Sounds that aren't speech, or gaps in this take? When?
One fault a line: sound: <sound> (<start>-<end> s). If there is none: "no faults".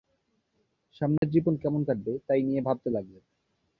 sound: dropout (1.2-1.2 s)